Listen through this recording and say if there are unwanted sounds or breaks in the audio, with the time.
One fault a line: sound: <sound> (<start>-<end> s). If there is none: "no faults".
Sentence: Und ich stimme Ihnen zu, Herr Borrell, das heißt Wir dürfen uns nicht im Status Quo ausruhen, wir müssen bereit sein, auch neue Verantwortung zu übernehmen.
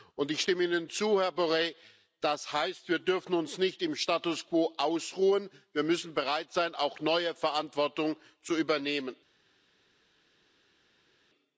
no faults